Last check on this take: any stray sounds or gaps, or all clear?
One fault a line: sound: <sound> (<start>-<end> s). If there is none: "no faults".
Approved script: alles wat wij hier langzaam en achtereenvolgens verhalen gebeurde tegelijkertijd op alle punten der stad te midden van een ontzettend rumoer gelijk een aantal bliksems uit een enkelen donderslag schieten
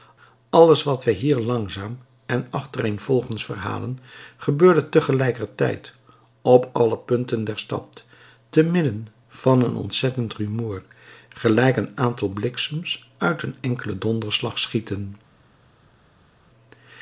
no faults